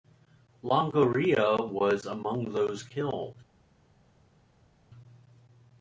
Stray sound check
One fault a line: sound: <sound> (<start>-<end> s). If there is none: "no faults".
no faults